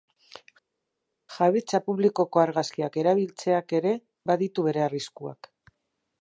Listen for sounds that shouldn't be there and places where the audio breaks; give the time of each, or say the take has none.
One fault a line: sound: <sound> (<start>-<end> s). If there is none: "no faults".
no faults